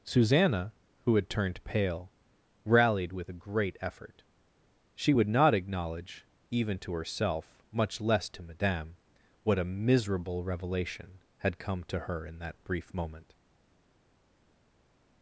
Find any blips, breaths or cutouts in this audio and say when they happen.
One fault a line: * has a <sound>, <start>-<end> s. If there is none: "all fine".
all fine